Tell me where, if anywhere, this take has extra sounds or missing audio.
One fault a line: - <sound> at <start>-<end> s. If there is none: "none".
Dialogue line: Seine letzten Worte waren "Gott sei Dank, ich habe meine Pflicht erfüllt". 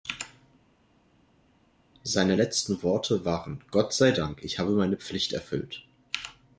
none